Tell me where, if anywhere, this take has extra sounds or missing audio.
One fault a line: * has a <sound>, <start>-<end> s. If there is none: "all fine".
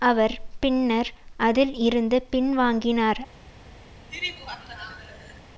* has a laugh, 4.1-5.4 s